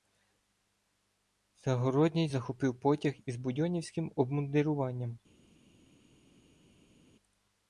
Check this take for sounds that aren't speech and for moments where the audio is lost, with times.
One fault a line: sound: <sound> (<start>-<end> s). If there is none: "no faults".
no faults